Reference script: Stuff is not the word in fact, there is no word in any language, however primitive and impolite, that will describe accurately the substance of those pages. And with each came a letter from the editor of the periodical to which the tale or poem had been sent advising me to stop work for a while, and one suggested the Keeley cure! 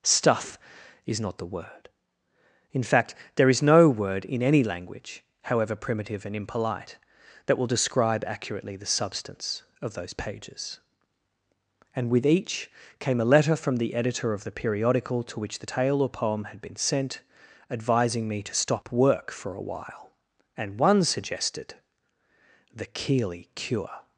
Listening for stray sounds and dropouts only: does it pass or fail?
pass